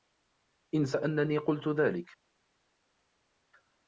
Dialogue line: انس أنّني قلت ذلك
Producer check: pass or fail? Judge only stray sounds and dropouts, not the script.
pass